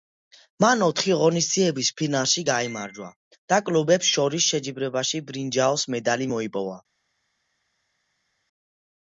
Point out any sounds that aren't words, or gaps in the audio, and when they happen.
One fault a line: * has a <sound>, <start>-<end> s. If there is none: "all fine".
all fine